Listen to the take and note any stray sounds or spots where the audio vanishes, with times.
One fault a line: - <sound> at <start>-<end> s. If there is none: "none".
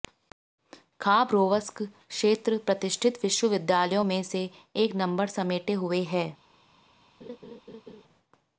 - laugh at 7.2-8.0 s